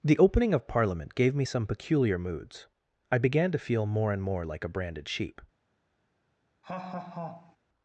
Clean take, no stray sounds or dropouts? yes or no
no